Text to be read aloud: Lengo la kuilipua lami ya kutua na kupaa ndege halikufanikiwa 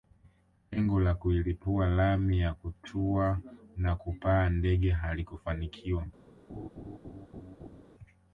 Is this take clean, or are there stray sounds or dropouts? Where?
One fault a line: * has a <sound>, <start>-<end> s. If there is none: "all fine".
* has a laugh, 6.5-7.8 s